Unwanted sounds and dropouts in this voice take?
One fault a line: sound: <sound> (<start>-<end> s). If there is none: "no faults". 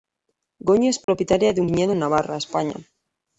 sound: dropout (1.0-1.1 s)